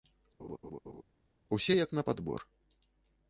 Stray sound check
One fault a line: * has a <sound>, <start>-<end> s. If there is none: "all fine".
* has a laugh, 0.4-1.0 s